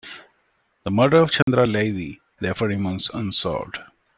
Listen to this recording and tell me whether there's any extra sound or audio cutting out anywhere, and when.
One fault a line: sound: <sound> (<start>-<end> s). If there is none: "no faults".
sound: dropout (1.4-1.5 s)